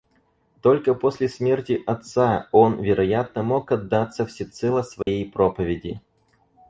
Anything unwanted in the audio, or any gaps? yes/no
yes